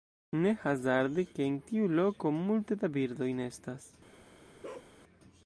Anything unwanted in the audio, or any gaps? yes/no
yes